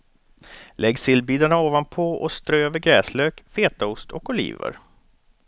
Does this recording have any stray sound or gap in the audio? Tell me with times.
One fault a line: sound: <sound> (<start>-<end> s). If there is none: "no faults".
no faults